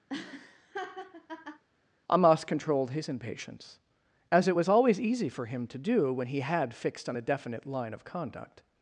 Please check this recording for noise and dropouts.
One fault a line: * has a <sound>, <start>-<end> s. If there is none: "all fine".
* has a laugh, 0.1-1.6 s